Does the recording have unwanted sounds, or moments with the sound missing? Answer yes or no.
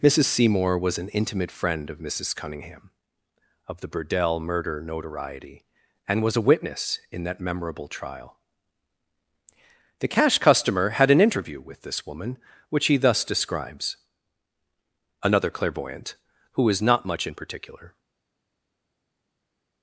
no